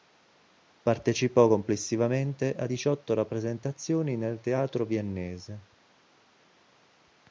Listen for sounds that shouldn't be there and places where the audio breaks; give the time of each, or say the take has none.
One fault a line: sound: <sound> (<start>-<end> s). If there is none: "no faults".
no faults